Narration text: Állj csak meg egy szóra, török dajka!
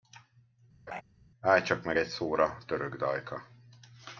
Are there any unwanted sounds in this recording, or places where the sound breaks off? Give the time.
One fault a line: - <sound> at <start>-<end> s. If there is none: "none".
- laugh at 0.9-1.0 s